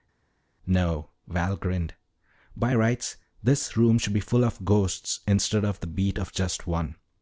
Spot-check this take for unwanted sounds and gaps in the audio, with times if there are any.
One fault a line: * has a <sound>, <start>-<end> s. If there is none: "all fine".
all fine